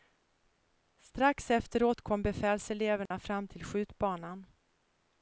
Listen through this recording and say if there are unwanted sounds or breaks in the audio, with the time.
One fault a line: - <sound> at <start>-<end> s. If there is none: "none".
- dropout at 3.1-3.1 s